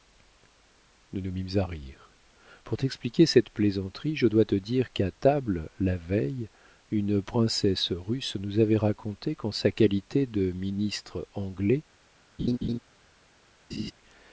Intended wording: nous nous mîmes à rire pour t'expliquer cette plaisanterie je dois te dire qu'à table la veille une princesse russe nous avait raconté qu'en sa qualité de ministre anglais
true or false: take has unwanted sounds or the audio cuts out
true